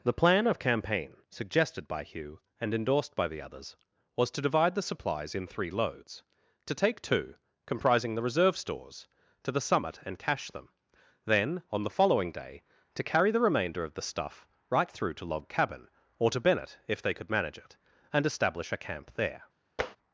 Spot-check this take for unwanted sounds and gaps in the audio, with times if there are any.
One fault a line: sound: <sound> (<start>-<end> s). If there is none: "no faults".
sound: tap (19.8-20.0 s)